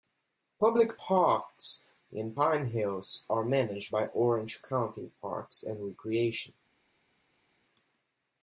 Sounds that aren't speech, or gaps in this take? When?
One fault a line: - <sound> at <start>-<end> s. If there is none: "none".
none